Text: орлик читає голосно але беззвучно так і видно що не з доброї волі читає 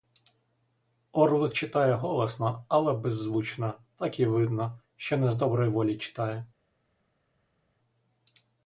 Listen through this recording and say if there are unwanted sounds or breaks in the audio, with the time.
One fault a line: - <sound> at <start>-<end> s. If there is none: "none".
none